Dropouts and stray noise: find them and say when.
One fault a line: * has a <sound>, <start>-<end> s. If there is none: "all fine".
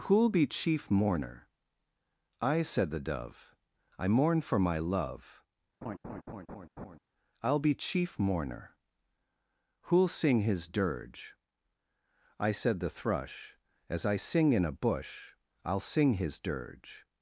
* has a laugh, 5.8-7.0 s